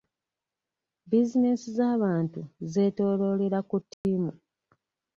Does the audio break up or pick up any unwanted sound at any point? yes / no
yes